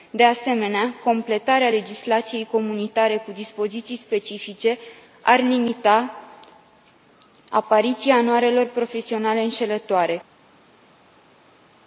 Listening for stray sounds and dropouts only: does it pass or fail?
pass